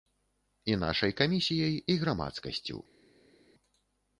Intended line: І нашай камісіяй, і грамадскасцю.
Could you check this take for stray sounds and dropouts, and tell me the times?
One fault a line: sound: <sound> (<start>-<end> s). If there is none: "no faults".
no faults